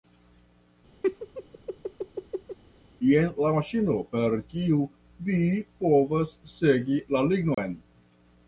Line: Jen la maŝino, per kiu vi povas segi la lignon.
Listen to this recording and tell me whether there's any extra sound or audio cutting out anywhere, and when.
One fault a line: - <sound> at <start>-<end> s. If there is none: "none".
- laugh at 1.0-2.6 s
- dropout at 7.5-7.6 s